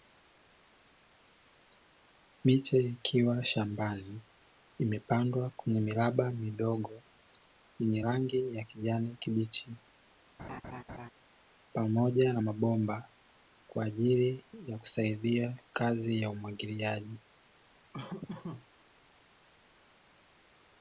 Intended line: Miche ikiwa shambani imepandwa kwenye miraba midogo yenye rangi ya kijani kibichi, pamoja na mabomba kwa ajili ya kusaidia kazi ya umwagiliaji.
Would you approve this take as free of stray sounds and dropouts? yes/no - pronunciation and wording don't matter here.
no